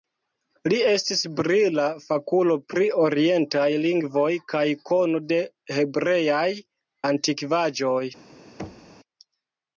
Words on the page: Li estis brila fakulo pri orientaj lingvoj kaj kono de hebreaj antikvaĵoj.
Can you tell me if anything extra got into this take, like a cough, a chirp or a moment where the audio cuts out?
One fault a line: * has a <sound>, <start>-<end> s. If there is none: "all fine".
* has a thud, 8.6-9.0 s